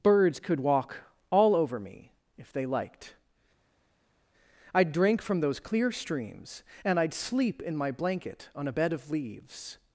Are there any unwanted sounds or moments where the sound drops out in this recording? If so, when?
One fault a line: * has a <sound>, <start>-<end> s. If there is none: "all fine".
all fine